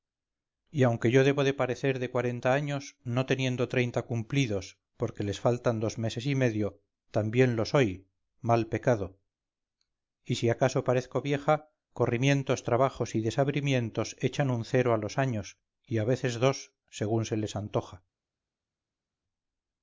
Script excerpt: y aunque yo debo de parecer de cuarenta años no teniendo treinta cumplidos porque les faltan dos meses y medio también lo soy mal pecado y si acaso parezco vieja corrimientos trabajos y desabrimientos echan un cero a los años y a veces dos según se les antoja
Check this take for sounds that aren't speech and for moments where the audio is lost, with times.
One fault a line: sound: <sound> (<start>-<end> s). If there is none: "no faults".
no faults